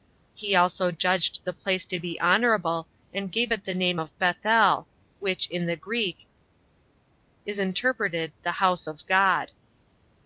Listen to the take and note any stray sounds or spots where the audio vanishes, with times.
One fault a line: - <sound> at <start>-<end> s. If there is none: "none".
none